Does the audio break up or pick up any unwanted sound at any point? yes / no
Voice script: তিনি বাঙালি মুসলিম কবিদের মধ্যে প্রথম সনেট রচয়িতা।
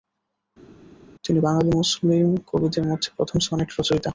no